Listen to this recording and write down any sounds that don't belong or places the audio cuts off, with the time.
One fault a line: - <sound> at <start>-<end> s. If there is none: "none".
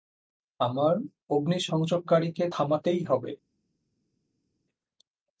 none